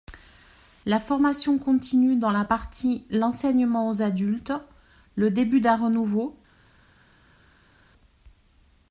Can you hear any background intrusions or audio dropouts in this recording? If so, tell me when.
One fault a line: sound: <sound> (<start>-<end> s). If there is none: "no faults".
no faults